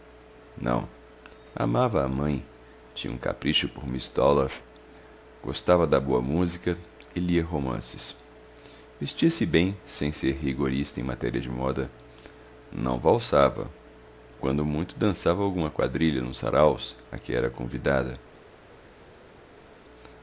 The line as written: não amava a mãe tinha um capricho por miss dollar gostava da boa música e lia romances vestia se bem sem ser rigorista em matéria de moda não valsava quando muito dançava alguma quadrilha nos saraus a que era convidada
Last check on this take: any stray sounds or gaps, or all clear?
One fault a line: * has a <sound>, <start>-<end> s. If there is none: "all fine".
all fine